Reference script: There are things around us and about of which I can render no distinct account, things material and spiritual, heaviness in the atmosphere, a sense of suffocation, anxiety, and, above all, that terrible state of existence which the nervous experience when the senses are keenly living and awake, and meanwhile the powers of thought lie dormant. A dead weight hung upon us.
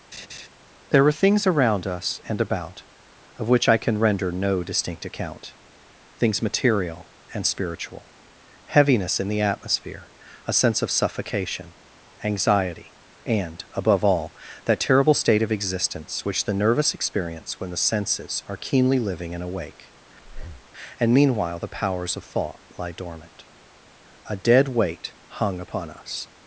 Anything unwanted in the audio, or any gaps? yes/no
yes